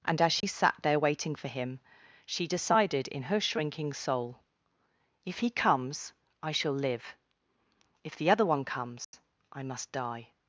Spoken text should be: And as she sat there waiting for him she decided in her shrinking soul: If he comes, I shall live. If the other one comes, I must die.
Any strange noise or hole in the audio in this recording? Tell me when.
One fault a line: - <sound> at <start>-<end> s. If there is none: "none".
- dropout at 0.4-0.4 s
- dropout at 9.0-9.1 s